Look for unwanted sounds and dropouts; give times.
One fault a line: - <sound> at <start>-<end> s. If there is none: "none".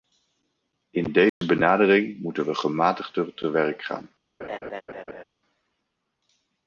- dropout at 1.3-1.4 s
- laugh at 4.4-5.2 s